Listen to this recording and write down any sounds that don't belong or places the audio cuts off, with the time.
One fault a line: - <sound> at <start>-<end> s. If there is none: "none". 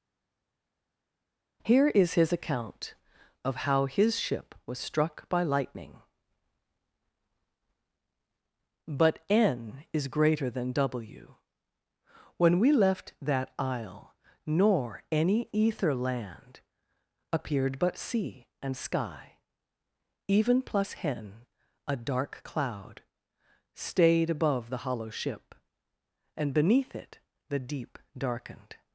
none